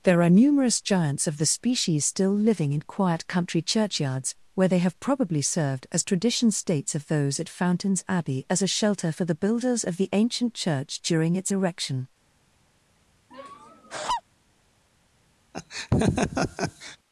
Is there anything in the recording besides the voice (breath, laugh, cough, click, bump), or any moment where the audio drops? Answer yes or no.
yes